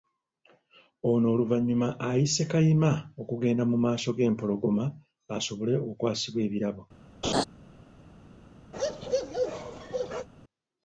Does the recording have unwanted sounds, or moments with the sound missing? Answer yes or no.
yes